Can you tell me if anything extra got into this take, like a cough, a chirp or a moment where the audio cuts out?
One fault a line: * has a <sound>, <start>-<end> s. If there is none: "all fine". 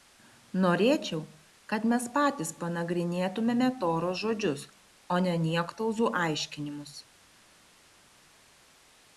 all fine